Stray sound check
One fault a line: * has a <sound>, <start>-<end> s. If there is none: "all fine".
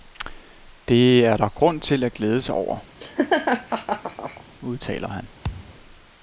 * has a laugh, 3.0-4.4 s
* has a thud, 5.4-5.8 s